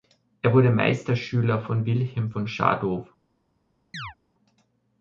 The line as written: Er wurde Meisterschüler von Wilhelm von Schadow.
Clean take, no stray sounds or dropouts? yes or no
no